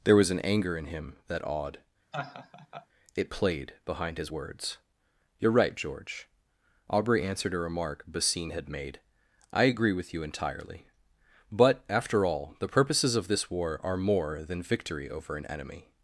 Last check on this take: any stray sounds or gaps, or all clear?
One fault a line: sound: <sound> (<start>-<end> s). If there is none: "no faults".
sound: laugh (2.1-2.9 s)